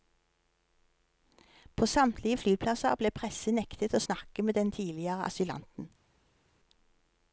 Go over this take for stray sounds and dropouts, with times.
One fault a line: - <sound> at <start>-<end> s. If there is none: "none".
none